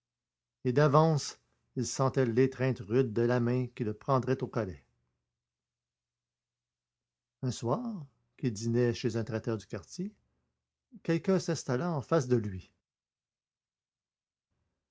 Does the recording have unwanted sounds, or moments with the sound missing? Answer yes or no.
no